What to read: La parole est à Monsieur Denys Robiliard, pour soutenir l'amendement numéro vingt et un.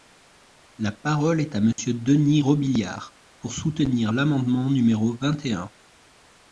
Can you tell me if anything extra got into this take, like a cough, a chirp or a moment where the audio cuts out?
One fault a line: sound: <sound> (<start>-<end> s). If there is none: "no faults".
sound: dropout (1.7-1.8 s)